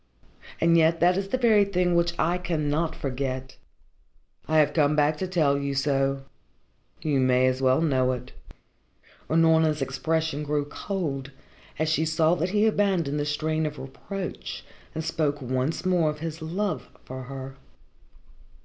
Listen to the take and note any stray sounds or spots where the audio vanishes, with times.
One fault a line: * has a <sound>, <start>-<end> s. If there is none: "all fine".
all fine